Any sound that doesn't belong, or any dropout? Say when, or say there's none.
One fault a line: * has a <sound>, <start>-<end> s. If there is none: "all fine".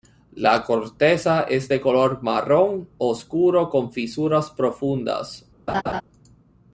* has a laugh, 5.7-6.0 s